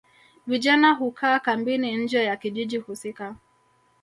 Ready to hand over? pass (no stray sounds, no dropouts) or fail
pass